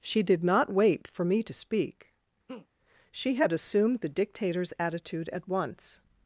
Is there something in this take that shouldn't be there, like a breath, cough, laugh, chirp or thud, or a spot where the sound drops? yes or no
yes